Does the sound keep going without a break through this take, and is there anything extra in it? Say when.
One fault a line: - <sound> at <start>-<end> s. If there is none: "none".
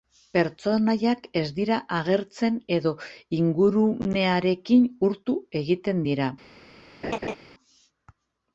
- laugh at 7.0-7.4 s